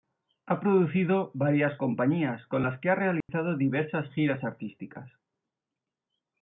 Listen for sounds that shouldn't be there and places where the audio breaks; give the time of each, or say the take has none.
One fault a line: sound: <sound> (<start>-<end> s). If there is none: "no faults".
sound: dropout (3.2-3.3 s)